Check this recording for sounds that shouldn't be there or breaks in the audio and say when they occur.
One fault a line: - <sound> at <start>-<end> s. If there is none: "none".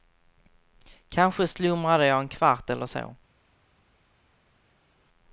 none